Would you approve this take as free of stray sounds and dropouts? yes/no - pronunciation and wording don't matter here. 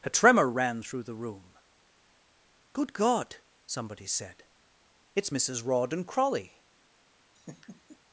no